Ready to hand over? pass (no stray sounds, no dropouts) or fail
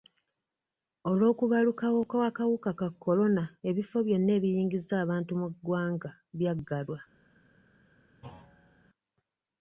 fail